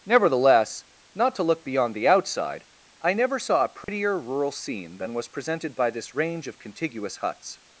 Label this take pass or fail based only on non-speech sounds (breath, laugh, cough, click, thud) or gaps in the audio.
fail